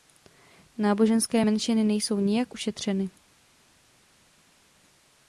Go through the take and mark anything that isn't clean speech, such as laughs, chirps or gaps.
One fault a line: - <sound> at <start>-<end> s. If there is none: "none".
none